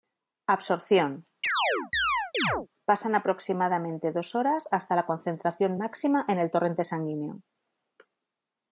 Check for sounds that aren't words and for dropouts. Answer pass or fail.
fail